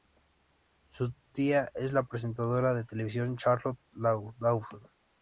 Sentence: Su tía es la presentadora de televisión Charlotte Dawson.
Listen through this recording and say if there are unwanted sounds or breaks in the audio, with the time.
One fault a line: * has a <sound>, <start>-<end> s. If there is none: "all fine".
all fine